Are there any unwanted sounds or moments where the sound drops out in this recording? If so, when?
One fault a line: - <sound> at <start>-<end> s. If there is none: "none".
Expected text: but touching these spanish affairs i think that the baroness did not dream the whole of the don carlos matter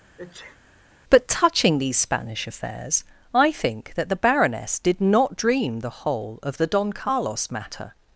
- sneeze at 0.2-0.6 s